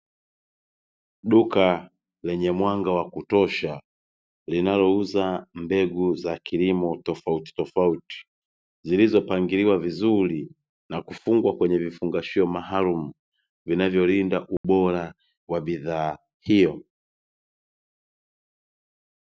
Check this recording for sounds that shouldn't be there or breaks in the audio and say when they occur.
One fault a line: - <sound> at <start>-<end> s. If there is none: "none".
- dropout at 14.6-14.6 s